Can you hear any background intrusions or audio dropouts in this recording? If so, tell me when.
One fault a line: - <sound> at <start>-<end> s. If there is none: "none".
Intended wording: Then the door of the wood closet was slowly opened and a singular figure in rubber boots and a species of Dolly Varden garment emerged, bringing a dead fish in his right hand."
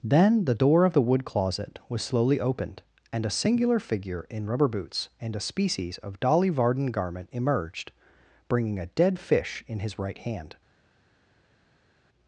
none